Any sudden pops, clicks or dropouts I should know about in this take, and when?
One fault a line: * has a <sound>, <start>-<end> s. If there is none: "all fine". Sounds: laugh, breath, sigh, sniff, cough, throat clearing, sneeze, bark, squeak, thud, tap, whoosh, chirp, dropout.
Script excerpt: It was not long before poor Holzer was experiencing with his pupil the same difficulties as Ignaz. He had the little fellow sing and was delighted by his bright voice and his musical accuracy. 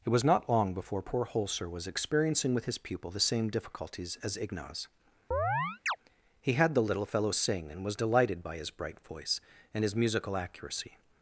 * has a chirp, 5.3-6.0 s